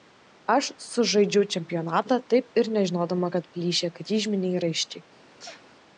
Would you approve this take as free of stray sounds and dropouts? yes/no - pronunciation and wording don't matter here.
no